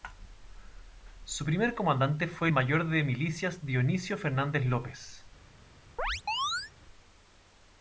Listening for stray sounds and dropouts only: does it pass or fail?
fail